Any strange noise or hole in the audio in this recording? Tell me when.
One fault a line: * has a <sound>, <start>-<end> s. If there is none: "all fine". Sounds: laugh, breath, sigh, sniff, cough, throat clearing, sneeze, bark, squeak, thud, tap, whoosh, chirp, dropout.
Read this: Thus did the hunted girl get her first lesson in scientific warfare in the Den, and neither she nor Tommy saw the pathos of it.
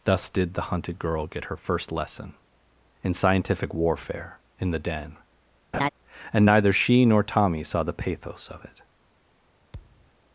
* has a laugh, 5.7-5.9 s
* has a thud, 9.7-10.1 s